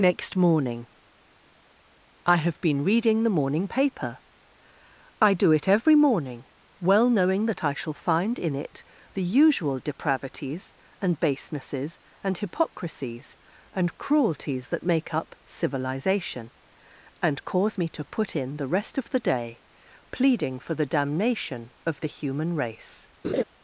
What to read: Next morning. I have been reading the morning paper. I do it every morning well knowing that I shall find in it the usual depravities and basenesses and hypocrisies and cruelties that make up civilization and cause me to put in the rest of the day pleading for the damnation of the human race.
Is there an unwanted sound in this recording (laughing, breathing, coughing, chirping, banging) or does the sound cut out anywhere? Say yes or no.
yes